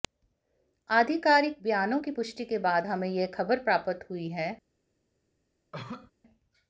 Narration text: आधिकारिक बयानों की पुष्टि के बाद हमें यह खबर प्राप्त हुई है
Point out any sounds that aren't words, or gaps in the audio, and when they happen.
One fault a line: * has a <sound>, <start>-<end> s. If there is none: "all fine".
* has a cough, 5.7-6.1 s